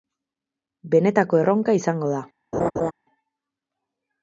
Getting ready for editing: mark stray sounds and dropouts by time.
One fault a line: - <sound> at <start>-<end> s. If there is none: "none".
- laugh at 2.5-2.9 s